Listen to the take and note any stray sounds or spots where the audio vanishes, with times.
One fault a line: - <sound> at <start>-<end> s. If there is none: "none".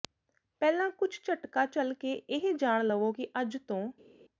none